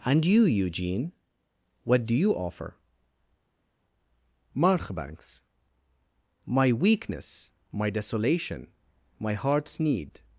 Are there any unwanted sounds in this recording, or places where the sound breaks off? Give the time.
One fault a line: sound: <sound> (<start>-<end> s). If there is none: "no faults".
no faults